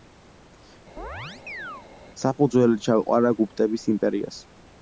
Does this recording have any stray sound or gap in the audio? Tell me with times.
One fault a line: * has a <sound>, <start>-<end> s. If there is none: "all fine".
* has a chirp, 1.0-1.9 s